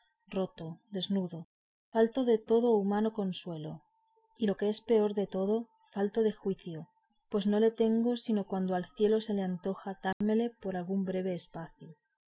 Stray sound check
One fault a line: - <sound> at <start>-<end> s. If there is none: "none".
- dropout at 10.1-10.2 s